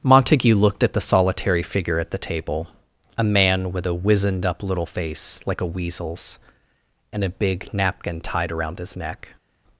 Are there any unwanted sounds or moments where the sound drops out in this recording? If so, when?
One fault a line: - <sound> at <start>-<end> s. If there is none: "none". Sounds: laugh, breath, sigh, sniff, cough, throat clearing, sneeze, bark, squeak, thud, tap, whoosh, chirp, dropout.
none